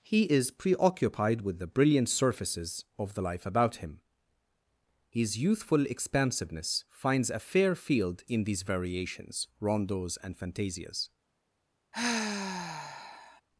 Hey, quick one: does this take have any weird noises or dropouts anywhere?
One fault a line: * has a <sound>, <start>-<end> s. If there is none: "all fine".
* has a sigh, 11.9-13.4 s